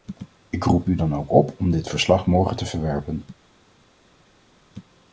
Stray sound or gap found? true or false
false